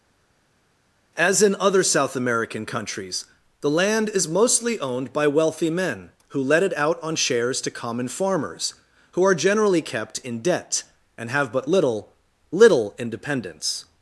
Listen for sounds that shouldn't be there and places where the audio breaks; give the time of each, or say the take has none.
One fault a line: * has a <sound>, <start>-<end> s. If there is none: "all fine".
all fine